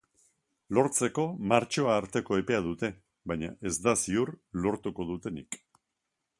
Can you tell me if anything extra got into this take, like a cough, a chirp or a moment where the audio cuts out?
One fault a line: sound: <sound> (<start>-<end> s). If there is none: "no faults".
no faults